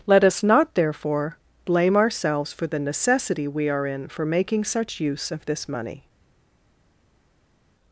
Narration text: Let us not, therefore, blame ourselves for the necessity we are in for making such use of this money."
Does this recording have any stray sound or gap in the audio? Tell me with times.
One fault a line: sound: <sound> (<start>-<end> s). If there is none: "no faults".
no faults